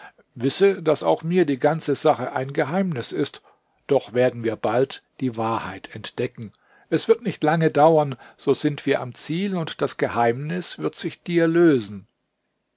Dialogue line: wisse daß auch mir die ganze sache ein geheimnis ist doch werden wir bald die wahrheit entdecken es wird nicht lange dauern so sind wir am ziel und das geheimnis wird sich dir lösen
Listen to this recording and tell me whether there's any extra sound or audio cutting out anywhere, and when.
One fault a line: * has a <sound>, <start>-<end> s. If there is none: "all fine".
all fine